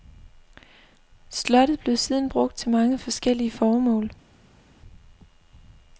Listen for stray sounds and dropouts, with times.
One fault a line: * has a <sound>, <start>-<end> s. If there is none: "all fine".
all fine